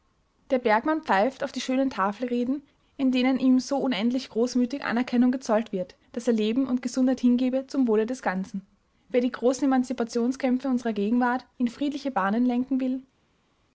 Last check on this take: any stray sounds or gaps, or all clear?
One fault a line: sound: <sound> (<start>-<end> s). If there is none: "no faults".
no faults